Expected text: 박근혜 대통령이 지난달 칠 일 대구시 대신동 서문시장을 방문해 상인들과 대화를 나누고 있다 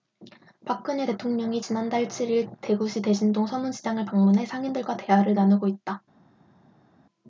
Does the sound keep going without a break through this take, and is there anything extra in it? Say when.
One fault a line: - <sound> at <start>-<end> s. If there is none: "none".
none